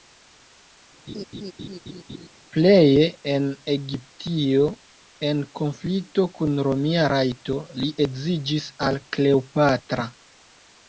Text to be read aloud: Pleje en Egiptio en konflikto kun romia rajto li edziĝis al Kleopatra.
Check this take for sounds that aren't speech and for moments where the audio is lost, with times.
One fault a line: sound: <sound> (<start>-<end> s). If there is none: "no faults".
sound: laugh (1.1-2.3 s)